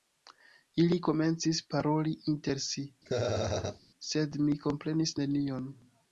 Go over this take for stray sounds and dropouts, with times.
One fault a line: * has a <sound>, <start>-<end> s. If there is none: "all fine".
* has a laugh, 3.1-3.8 s